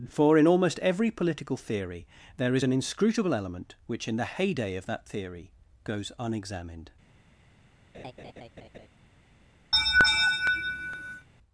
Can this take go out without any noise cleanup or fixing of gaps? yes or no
no